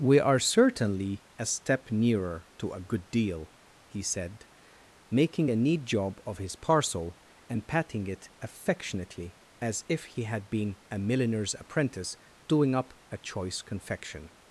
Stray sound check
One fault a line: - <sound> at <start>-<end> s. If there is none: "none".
none